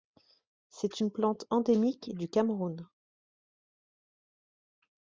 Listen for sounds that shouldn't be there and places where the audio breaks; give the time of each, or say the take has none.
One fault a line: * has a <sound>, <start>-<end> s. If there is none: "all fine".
all fine